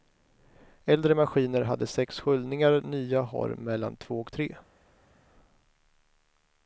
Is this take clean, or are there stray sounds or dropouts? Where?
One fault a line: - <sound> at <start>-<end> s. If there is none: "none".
none